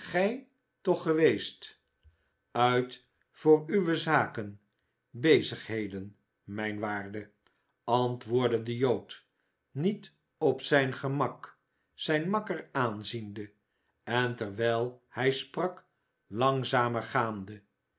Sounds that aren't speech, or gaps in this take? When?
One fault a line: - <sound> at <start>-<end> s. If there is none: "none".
none